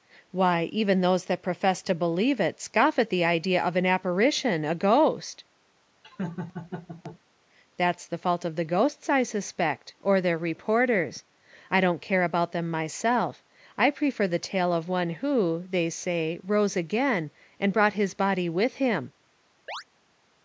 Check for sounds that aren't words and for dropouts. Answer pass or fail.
fail